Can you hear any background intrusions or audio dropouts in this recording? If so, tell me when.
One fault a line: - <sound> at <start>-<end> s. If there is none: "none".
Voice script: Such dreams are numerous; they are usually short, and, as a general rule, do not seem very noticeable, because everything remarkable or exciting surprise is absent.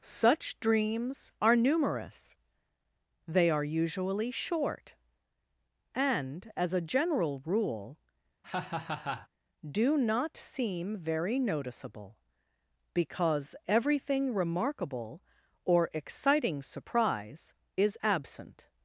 - laugh at 8.4-9.3 s